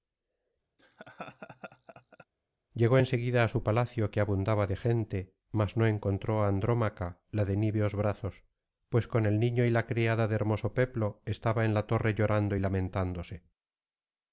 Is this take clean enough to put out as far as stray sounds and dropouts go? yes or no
no